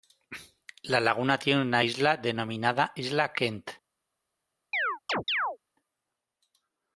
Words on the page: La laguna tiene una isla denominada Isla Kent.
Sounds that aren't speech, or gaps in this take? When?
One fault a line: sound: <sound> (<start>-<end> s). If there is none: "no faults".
sound: chirp (4.7-5.6 s)